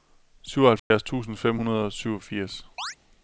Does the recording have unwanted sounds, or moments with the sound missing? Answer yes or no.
yes